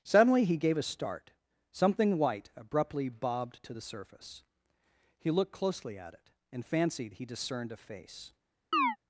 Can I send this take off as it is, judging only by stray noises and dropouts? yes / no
no